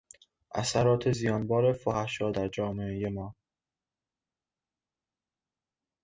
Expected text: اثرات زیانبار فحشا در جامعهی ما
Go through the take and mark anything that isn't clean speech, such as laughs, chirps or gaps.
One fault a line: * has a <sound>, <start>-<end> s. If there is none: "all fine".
all fine